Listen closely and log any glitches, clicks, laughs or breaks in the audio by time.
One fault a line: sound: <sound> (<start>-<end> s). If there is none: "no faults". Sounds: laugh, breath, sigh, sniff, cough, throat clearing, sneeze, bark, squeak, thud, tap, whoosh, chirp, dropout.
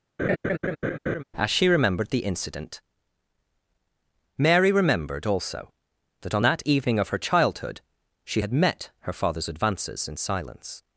sound: laugh (0.2-1.2 s)